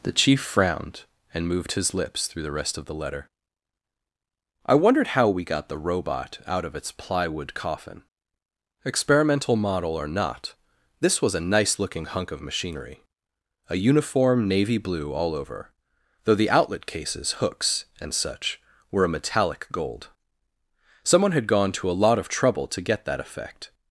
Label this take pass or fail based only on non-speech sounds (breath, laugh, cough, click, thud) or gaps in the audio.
pass